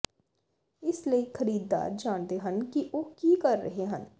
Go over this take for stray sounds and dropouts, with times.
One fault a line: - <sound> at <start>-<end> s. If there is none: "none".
none